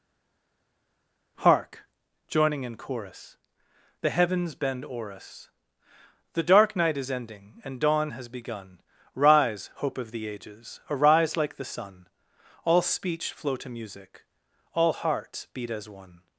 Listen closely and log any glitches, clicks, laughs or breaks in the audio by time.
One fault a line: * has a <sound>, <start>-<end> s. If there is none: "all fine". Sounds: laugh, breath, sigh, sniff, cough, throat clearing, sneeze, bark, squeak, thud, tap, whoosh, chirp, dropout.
all fine